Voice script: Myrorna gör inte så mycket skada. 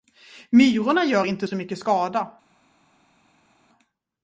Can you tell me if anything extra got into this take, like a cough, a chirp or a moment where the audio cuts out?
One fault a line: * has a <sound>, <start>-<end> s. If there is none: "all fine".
all fine